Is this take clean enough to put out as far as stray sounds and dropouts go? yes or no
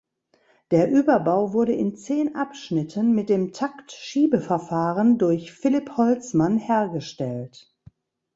yes